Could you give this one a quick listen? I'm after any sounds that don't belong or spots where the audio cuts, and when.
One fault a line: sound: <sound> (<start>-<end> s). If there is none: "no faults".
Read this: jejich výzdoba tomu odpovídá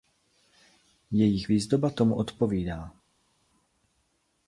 no faults